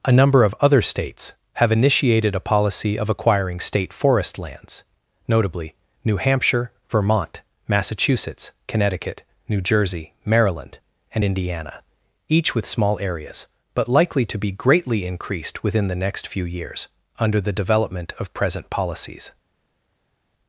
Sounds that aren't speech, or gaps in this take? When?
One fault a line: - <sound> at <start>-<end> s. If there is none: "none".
none